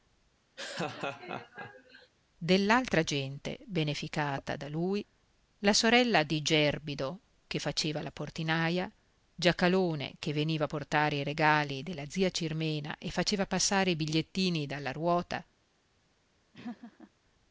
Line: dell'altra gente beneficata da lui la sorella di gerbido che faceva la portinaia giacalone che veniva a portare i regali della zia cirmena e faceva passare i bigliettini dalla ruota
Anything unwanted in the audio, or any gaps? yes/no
yes